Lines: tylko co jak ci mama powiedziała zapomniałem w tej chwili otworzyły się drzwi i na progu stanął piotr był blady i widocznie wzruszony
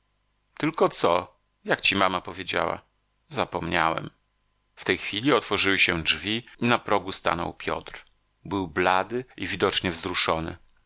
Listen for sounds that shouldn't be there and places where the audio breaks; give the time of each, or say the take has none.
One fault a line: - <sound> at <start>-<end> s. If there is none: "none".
none